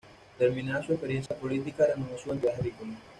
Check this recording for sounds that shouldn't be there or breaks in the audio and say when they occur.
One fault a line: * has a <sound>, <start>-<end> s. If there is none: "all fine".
* has a dropout, 1.3-1.3 s